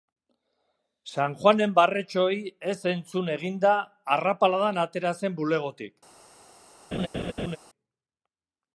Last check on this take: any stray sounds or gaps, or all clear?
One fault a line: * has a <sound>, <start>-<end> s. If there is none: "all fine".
* has a laugh, 6.9-7.6 s